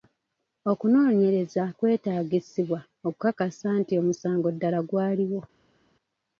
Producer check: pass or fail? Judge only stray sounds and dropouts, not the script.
pass